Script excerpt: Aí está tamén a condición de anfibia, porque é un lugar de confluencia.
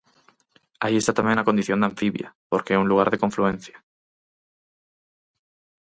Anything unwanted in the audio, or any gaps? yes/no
no